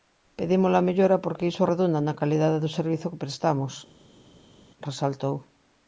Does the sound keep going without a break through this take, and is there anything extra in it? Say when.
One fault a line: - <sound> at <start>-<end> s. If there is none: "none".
none